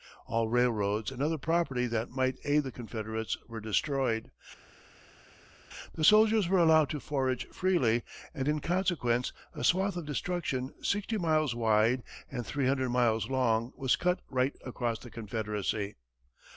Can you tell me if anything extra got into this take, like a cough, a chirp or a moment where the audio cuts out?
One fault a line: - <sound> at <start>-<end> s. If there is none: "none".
none